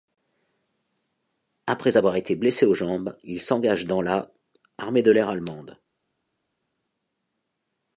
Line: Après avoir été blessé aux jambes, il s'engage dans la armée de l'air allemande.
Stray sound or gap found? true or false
false